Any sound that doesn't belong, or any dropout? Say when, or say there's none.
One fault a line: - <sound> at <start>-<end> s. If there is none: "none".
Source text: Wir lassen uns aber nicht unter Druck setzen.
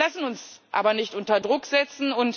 none